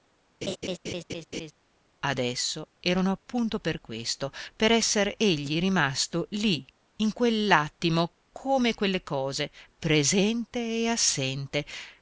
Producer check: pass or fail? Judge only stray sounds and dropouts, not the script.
fail